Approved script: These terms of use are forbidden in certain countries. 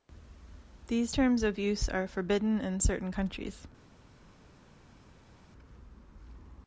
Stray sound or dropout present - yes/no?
no